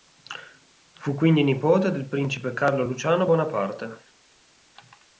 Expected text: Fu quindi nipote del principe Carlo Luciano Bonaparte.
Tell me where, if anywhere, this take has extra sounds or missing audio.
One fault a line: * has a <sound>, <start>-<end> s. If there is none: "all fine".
all fine